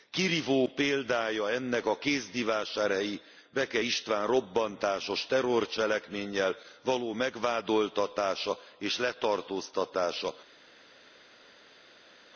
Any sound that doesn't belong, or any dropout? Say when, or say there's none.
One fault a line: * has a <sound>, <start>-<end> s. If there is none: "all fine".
all fine